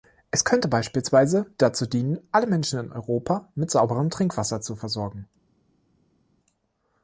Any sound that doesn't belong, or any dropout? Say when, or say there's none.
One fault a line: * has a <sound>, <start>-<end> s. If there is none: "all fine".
all fine